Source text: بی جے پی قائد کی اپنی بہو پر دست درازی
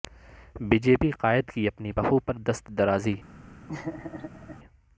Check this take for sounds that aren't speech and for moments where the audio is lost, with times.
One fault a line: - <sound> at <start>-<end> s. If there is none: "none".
- laugh at 3.7-4.6 s